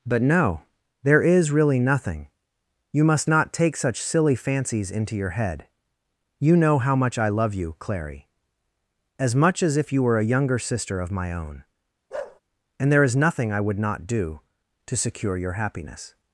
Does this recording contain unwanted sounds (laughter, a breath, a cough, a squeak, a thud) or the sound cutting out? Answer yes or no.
yes